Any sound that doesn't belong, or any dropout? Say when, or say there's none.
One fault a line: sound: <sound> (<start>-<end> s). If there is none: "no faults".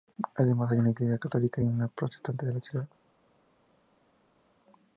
no faults